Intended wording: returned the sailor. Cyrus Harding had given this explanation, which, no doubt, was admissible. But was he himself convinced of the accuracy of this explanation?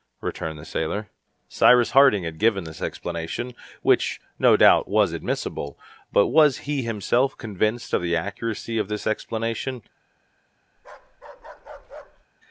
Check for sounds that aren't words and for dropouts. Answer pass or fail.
fail